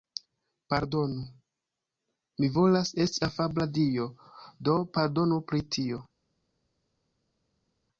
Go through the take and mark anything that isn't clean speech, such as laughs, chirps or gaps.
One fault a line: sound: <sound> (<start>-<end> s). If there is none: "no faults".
no faults